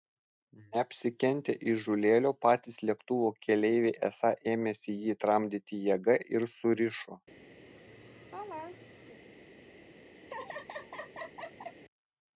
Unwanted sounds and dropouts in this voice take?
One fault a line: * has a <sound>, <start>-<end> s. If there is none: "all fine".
* has a laugh, 7.6-9.2 s
* has a laugh, 10.2-11.8 s